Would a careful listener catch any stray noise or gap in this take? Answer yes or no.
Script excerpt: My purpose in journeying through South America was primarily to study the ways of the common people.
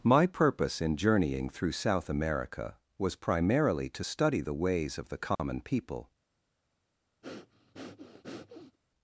yes